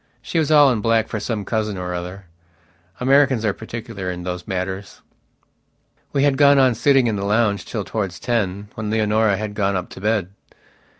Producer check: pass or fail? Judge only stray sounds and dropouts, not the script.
pass